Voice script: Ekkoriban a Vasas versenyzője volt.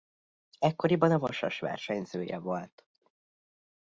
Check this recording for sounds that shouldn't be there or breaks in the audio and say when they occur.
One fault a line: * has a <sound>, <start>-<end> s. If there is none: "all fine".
all fine